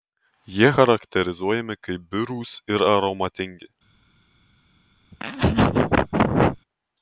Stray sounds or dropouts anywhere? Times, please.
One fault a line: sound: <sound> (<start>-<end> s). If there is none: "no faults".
sound: laugh (5.1-6.6 s)